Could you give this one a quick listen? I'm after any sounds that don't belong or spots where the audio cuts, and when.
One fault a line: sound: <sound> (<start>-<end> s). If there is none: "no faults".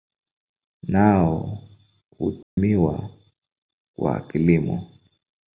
sound: dropout (2.4-2.6 s)